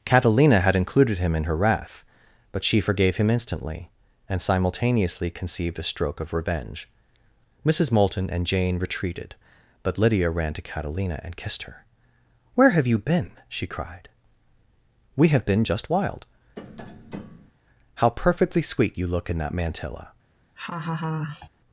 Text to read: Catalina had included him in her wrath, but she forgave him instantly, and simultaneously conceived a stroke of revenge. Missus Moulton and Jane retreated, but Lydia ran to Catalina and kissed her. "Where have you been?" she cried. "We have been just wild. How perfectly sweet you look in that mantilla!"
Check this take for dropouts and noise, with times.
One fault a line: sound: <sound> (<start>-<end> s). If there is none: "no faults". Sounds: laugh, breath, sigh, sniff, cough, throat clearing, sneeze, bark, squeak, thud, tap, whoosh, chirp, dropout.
sound: tap (16.6-17.5 s)
sound: laugh (20.6-21.5 s)